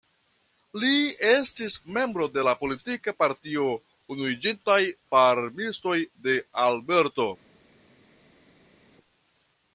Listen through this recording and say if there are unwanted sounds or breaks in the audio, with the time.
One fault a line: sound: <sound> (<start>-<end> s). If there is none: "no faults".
no faults